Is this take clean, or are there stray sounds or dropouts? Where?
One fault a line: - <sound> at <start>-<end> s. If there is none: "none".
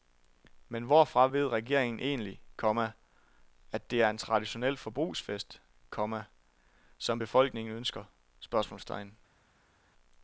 none